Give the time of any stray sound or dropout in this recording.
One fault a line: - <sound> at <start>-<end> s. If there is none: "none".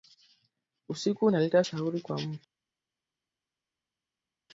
none